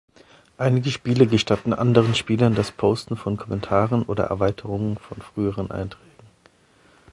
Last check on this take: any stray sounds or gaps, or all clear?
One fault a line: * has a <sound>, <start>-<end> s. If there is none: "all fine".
all fine